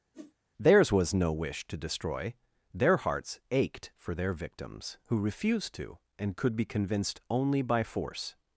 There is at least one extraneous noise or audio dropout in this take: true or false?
true